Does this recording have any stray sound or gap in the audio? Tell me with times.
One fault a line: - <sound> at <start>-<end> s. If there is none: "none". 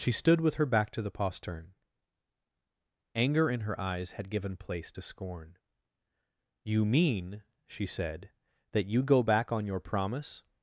none